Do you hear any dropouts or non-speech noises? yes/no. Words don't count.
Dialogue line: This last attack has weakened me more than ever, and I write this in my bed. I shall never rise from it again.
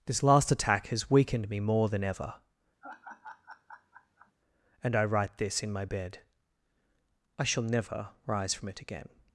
yes